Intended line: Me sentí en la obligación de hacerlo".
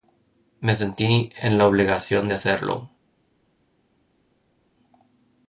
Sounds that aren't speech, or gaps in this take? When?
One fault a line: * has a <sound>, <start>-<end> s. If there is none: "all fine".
all fine